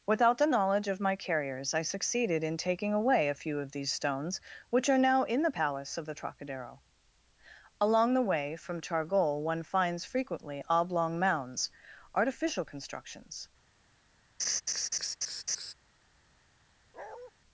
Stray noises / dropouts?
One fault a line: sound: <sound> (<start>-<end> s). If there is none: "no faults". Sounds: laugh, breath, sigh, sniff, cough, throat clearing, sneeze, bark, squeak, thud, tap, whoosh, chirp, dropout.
sound: laugh (14.4-15.7 s)
sound: bark (16.9-17.3 s)